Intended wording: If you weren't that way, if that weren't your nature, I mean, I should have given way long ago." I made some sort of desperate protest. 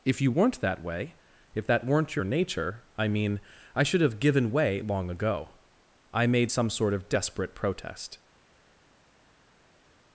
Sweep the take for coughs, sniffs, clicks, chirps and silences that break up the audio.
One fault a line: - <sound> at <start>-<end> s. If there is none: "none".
none